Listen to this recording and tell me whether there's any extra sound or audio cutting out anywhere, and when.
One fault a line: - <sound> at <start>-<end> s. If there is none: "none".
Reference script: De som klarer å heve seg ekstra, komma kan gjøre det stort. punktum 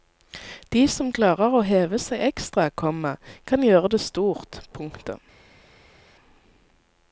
none